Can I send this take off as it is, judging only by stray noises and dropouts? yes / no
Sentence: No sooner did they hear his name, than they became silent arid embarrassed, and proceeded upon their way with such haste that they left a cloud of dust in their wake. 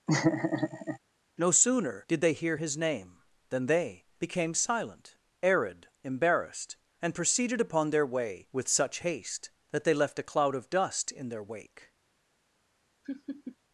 no